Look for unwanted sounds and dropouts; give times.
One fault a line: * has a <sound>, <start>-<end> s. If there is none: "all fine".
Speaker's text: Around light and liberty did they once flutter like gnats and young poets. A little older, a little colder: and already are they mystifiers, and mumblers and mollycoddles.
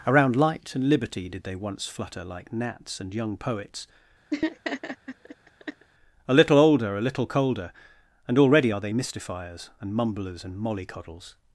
* has a laugh, 4.3-5.9 s